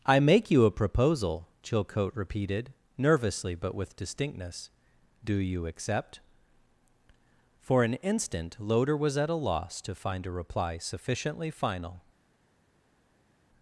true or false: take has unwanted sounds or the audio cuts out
false